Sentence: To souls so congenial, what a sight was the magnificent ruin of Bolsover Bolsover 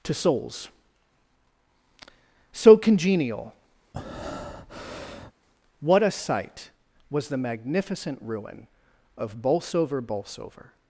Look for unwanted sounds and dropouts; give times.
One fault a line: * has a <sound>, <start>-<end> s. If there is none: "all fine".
* has a breath, 3.9-5.3 s